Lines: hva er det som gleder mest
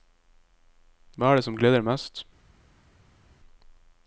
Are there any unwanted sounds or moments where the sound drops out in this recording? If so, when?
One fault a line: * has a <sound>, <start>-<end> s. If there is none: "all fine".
all fine